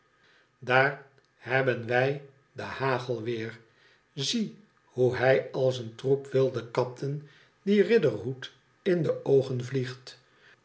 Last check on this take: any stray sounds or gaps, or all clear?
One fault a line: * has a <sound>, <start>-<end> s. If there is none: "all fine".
all fine